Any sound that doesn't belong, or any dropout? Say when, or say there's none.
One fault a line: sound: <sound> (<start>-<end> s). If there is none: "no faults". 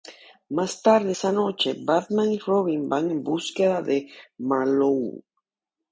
no faults